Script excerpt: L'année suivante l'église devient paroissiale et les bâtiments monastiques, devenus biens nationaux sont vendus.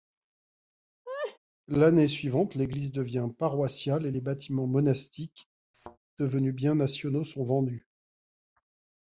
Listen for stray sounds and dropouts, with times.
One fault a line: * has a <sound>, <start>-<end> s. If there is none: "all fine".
* has a laugh, 1.1-1.4 s
* has a thud, 5.7-6.0 s